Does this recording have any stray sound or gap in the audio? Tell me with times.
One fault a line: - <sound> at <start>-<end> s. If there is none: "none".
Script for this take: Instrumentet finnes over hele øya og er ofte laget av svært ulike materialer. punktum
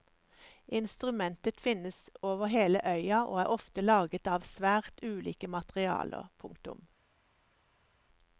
none